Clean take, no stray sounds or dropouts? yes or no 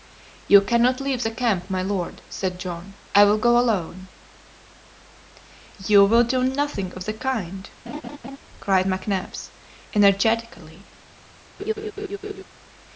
no